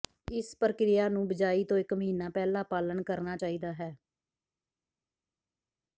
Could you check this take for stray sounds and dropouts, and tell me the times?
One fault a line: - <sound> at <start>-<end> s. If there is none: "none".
none